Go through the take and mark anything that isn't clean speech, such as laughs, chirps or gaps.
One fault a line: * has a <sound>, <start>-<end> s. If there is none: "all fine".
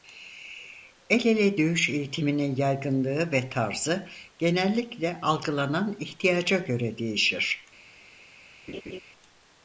* has a laugh, 8.7-9.0 s